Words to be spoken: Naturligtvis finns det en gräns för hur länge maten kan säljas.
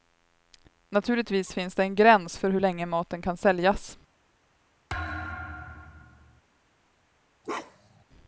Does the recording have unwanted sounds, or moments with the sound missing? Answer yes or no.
yes